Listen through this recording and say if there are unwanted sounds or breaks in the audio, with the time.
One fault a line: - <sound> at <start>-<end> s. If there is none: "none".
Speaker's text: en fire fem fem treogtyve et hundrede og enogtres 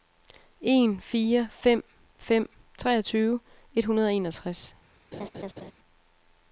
- laugh at 5.1-5.7 s